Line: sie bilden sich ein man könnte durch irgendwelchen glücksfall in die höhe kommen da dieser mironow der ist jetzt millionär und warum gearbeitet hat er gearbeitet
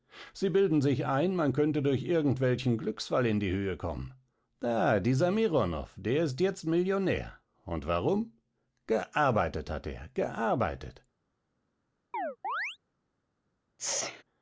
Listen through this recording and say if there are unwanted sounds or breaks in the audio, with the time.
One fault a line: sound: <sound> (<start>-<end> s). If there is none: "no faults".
sound: chirp (12.1-12.8 s)
sound: sneeze (13.8-14.2 s)